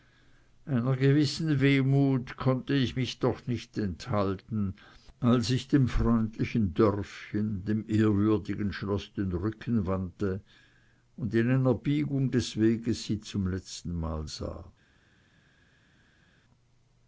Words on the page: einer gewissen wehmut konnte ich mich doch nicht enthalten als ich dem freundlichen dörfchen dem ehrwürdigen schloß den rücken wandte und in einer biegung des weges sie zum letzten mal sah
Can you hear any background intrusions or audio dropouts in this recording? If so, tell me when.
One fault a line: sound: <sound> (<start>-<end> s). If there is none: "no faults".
no faults